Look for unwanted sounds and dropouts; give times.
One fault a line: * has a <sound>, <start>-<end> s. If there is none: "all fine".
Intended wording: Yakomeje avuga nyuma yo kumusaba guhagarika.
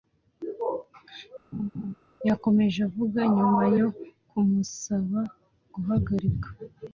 * has a laugh, 1.5-1.9 s